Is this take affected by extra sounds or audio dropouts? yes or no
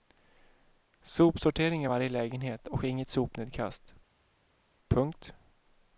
no